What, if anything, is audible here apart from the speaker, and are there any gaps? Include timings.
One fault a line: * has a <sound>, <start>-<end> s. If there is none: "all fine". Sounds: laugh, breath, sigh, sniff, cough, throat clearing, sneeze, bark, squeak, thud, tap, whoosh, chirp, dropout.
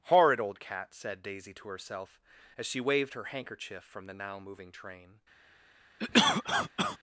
* has a cough, 6.0-7.0 s